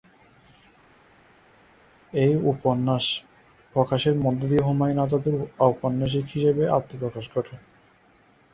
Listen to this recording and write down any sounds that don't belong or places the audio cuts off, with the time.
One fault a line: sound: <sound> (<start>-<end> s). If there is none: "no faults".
no faults